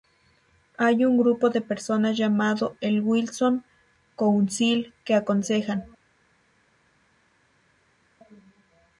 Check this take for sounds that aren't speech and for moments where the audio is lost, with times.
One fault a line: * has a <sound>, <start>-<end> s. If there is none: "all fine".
all fine